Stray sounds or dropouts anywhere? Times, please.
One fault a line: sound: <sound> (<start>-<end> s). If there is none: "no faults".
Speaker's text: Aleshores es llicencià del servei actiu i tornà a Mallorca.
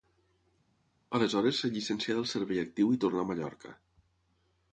no faults